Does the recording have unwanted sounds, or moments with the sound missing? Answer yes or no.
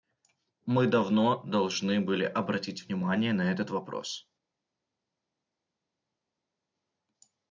no